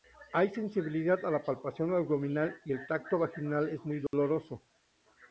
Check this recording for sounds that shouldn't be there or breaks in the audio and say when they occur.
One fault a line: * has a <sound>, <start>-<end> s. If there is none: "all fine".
* has a dropout, 4.1-4.1 s